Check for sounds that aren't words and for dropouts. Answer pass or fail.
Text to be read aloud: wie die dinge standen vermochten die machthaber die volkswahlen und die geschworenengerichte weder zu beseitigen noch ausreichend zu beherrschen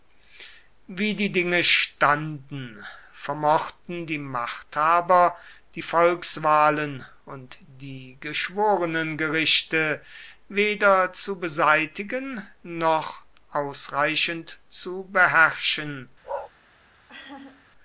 fail